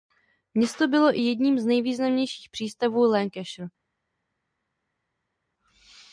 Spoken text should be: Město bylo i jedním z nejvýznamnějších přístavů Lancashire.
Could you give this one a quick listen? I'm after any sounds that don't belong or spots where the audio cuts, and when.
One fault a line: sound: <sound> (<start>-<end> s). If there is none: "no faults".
no faults